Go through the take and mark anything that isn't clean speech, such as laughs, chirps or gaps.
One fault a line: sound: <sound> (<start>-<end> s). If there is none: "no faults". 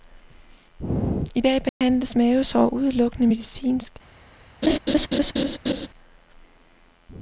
sound: dropout (1.7-1.8 s)
sound: laugh (4.6-5.9 s)